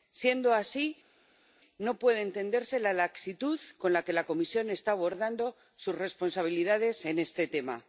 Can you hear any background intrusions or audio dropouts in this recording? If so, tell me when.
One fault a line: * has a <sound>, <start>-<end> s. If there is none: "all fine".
all fine